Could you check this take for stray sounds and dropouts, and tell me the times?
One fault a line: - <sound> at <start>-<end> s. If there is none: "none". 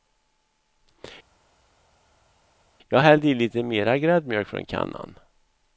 none